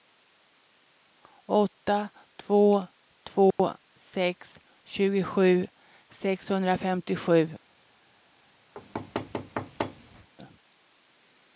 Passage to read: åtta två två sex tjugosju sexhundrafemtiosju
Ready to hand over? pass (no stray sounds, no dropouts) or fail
fail